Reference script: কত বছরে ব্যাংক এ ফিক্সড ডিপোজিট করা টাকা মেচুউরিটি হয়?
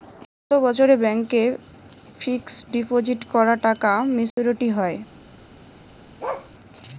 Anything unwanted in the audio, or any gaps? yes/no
yes